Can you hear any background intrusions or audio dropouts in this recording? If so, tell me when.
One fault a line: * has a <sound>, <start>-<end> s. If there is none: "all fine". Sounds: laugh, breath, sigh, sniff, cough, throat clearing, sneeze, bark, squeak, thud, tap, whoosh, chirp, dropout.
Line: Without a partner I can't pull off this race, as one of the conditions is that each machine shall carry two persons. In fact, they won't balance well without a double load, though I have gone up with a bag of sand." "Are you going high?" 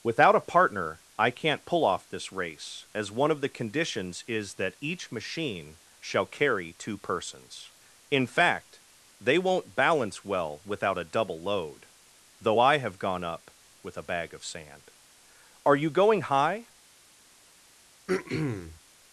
* has a throat clearing, 18.1-18.8 s